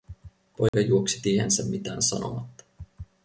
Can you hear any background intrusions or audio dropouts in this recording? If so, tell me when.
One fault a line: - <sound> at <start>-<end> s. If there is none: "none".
- dropout at 0.7-0.7 s